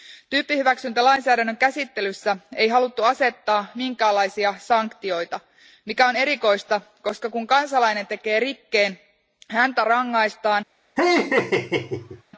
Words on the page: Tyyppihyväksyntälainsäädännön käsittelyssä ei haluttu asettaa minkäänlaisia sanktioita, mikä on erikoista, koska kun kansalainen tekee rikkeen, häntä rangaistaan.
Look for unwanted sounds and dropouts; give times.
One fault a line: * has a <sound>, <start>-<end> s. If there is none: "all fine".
* has a laugh, 11.0-12.2 s